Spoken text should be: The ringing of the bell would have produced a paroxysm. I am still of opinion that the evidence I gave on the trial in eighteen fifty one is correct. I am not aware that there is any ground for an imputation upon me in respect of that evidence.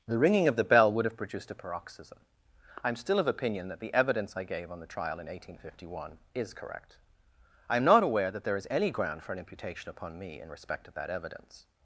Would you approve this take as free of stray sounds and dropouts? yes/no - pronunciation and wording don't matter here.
yes